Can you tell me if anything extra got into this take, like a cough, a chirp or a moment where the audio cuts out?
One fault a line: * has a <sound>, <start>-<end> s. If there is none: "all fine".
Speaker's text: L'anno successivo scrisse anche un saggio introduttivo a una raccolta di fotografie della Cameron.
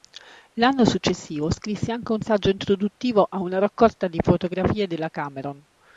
all fine